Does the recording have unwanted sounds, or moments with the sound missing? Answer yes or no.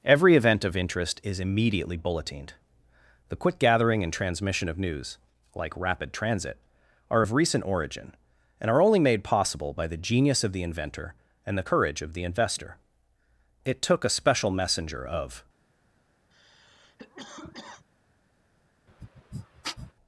yes